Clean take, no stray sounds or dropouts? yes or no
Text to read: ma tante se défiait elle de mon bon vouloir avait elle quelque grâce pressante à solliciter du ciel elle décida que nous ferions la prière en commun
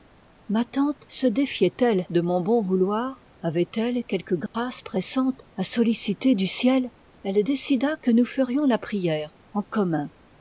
no